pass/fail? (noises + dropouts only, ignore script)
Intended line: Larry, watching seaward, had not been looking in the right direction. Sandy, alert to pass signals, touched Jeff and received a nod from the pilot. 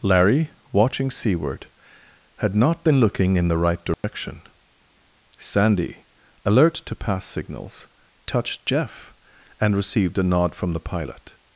fail